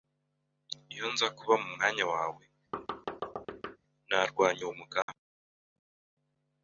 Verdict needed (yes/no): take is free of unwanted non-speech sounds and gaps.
no